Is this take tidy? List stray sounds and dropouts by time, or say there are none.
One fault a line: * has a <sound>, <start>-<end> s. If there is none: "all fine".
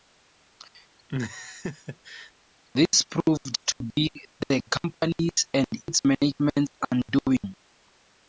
* has a laugh, 1.1-2.3 s